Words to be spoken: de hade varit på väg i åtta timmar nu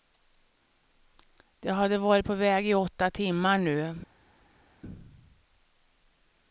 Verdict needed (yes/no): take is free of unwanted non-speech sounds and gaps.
yes